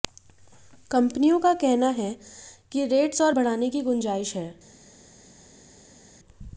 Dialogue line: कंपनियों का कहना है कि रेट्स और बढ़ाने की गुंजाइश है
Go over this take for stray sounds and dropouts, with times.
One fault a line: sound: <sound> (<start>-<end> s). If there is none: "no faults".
no faults